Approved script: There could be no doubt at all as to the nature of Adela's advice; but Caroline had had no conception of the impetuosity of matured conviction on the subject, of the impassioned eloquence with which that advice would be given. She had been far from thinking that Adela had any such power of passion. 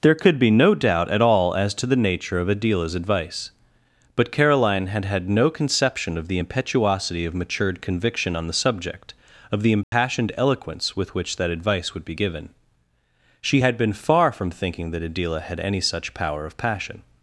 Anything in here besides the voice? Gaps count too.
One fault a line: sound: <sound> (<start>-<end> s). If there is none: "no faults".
sound: dropout (9.8-9.9 s)